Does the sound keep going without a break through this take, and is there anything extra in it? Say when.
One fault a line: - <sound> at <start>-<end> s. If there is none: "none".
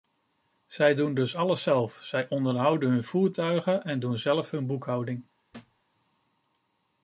- thud at 5.5-5.8 s